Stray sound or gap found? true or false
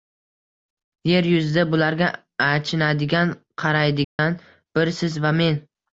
true